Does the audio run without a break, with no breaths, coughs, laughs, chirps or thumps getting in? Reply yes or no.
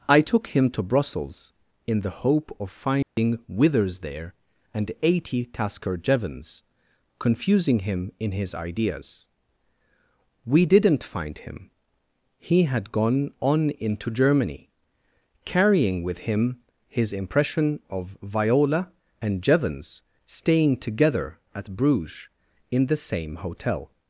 no